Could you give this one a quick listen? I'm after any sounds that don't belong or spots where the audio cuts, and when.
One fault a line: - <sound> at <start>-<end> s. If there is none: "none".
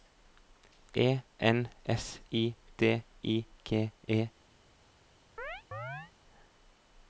- chirp at 5.4-6.1 s